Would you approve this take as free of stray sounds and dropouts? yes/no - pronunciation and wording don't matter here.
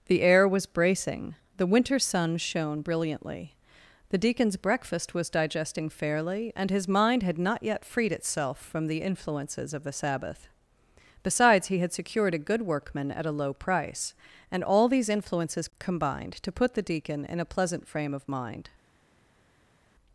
yes